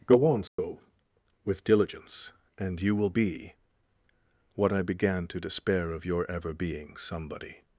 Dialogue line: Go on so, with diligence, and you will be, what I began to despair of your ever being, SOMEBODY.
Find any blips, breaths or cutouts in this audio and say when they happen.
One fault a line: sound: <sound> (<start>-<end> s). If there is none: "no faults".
sound: dropout (0.5-0.6 s)